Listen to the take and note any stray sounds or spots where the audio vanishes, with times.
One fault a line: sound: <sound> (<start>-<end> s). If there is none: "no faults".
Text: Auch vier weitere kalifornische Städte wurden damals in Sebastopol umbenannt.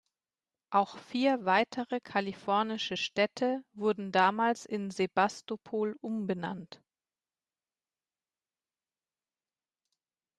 no faults